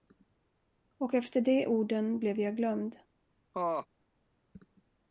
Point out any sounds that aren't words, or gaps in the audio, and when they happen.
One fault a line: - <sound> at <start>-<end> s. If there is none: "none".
- laugh at 3.5-3.9 s